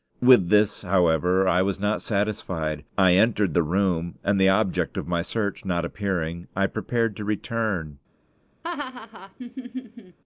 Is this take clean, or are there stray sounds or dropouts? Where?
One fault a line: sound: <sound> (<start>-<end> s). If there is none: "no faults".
sound: laugh (8.6-10.2 s)